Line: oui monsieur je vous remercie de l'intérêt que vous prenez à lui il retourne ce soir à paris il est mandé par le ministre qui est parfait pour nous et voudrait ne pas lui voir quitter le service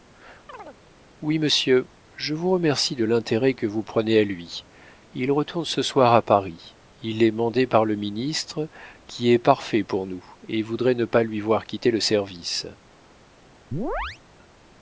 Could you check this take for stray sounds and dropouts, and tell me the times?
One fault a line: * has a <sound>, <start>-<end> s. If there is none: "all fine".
* has a chirp, 0.5-0.8 s
* has a chirp, 13.7-14.2 s